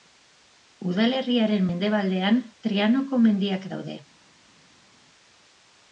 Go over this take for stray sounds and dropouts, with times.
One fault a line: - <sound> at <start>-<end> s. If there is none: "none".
none